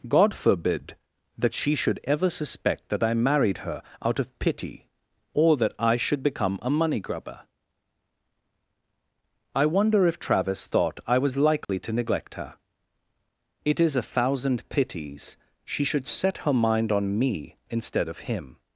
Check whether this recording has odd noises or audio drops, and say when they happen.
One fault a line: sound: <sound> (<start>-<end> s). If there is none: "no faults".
sound: dropout (11.6-11.7 s)